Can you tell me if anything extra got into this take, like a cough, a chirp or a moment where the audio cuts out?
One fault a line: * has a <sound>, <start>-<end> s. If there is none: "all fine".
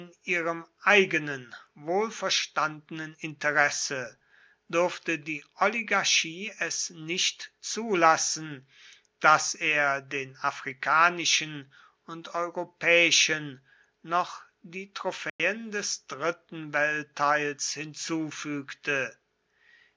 * has a dropout, 15.3-15.4 s